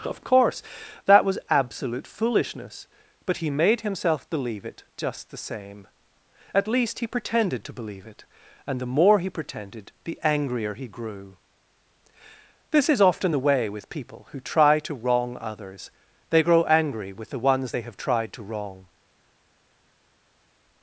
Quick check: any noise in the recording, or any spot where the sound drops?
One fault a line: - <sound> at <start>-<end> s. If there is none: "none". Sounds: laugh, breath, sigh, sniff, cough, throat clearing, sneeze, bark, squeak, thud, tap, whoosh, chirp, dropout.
none